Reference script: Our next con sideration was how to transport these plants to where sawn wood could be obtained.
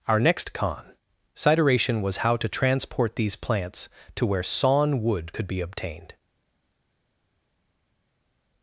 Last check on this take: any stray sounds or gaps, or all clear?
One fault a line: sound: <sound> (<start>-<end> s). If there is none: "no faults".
no faults